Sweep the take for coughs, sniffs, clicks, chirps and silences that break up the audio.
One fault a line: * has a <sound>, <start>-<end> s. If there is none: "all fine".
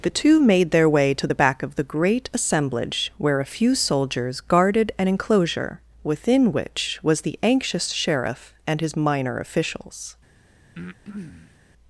* has a breath, 10.7-11.6 s